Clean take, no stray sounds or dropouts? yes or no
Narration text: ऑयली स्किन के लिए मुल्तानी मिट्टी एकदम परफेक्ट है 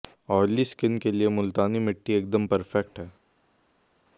yes